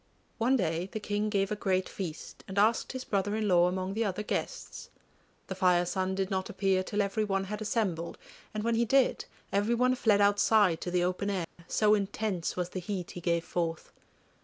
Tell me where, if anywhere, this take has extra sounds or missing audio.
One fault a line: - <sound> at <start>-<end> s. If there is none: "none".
- dropout at 11.4-11.6 s